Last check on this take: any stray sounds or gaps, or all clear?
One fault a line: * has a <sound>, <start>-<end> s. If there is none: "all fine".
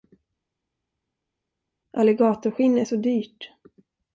all fine